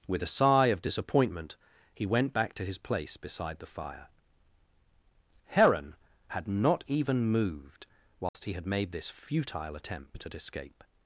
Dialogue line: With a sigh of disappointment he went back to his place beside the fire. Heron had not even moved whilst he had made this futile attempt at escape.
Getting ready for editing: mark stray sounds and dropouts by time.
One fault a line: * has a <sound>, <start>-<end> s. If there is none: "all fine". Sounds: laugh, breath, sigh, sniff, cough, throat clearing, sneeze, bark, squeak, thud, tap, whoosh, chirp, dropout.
* has a dropout, 8.3-8.3 s